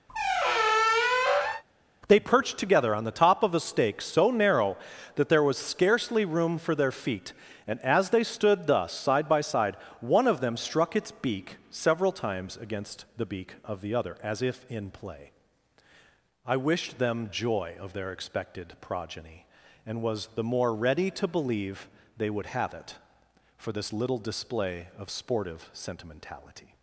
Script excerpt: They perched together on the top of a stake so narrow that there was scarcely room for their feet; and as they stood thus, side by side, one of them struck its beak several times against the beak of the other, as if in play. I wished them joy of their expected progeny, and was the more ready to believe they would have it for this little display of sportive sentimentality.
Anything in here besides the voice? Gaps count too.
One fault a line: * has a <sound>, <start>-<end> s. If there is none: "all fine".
* has a squeak, 0.1-1.6 s